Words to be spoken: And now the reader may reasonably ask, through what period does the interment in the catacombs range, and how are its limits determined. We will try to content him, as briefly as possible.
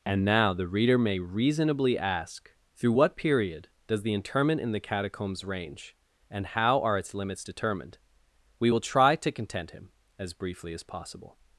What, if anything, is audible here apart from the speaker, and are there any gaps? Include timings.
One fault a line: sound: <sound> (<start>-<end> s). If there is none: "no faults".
no faults